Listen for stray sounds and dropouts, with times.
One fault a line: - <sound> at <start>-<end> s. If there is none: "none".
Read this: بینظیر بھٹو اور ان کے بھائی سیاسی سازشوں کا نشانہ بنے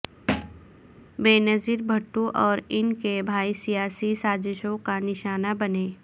- thud at 0.3-0.7 s